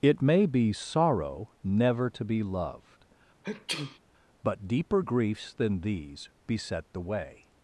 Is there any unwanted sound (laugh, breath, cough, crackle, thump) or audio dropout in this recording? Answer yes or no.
yes